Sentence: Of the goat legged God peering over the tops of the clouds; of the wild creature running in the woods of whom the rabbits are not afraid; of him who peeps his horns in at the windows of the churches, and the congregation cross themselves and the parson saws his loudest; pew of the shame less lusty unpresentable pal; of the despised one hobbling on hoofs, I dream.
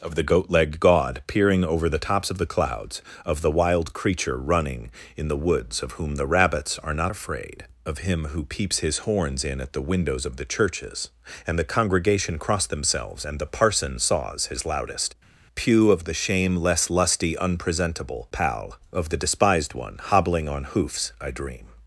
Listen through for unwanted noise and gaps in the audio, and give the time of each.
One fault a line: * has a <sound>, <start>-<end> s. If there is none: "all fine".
all fine